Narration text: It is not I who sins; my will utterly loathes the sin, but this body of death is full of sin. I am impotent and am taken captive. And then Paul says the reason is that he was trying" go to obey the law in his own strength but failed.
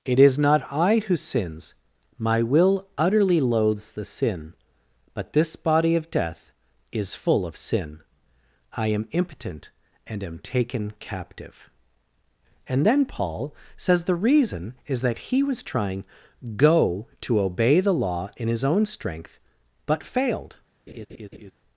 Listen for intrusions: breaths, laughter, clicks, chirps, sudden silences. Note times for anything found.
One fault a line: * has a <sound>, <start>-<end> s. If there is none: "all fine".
* has a laugh, 20.9-21.5 s